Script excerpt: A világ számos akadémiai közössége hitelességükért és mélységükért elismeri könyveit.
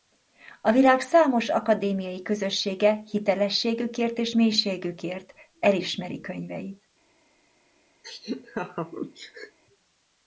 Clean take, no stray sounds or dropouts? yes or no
no